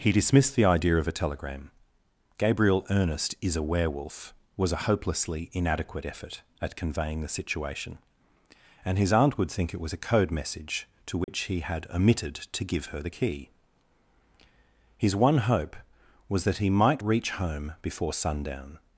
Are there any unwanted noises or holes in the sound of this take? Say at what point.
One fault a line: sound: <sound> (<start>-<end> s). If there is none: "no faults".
sound: dropout (11.2-11.3 s)